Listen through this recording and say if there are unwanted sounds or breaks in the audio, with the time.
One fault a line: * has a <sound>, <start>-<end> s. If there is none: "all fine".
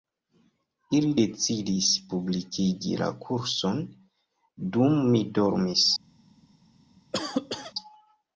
* has a cough, 7.1-7.7 s